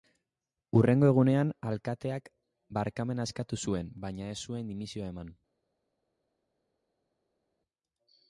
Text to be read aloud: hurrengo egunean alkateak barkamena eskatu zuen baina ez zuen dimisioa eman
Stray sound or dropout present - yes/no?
no